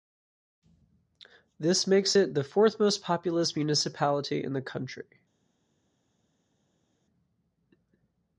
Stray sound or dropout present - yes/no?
no